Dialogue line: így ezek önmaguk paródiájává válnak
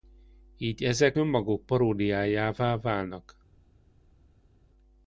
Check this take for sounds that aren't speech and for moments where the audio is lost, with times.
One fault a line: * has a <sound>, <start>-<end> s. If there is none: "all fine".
all fine